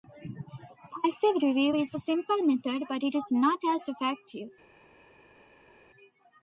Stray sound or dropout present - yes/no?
no